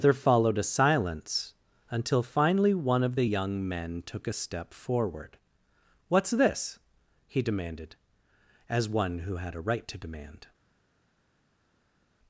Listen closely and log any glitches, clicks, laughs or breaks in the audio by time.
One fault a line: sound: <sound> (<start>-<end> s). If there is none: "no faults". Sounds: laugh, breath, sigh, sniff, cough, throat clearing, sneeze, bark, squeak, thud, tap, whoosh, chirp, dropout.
no faults